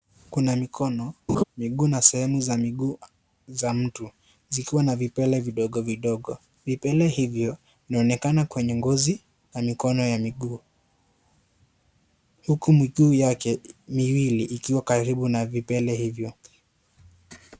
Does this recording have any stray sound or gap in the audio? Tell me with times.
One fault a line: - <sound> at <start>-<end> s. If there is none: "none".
- laugh at 1.3-1.4 s